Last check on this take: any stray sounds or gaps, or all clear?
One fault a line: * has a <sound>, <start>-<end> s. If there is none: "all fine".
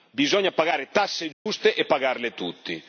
* has a dropout, 1.3-1.5 s